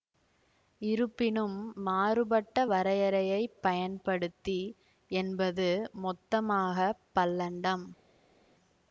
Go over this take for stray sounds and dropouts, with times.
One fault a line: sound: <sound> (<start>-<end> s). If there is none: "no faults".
no faults